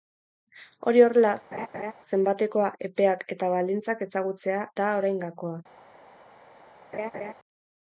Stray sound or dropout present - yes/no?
yes